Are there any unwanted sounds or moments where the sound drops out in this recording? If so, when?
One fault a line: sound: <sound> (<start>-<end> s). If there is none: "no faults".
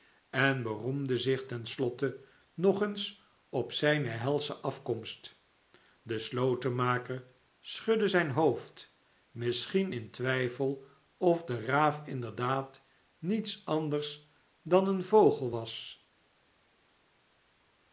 no faults